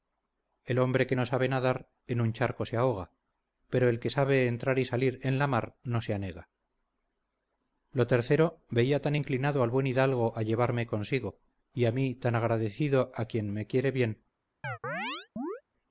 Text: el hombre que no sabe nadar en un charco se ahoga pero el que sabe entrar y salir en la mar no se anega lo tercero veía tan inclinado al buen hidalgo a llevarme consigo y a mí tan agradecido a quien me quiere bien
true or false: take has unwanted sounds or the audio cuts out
true